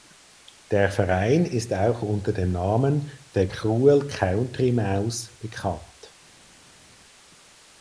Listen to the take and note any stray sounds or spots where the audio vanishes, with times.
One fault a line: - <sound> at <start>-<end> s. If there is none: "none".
none